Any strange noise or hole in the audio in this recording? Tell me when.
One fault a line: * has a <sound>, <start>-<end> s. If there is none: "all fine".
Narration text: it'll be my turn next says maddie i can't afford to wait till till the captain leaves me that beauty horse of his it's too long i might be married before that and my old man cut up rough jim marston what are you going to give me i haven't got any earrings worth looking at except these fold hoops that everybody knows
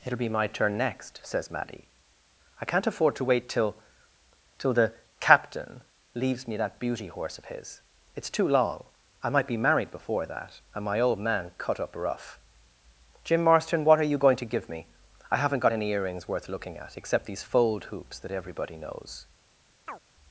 * has a chirp, 19.9-20.0 s